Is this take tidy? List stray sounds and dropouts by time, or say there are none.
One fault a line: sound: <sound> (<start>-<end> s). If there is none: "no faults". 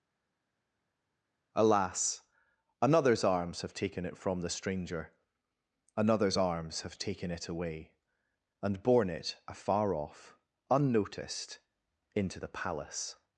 no faults